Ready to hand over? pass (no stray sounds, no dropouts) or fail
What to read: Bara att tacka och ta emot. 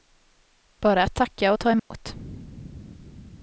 fail